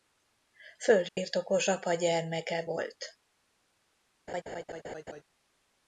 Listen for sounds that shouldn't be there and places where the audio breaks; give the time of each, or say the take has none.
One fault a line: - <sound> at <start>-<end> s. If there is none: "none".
- dropout at 1.1-1.2 s
- laugh at 4.3-5.2 s